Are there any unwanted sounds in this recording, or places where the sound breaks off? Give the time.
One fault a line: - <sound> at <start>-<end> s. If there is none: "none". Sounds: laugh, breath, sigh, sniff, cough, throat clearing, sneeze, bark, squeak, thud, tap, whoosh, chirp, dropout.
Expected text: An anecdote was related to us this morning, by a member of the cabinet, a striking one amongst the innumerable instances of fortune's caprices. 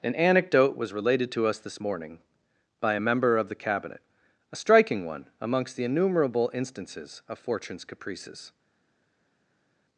none